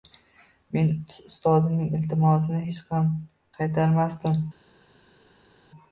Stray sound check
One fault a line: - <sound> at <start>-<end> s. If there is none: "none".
none